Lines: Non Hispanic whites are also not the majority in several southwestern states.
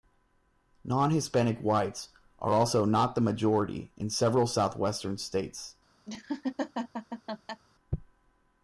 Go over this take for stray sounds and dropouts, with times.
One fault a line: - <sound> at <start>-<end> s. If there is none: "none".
- laugh at 6.1-7.6 s